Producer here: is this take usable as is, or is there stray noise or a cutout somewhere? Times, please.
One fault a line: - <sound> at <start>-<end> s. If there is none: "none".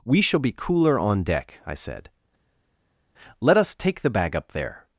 none